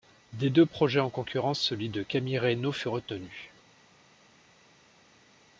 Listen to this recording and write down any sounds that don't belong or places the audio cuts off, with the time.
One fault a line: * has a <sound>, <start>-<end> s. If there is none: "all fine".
all fine